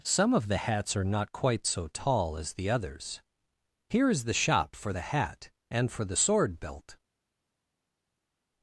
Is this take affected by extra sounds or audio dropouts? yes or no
no